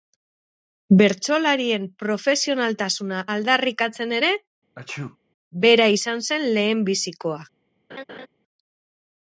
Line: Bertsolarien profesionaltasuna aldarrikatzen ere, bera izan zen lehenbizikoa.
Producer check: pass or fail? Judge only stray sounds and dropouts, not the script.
fail